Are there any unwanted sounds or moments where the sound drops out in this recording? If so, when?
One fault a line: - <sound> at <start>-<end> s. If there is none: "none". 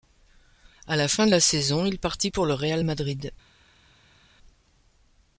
none